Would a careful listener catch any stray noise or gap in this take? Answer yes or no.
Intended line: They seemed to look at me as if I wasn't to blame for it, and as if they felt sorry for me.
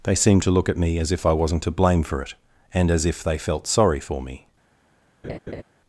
yes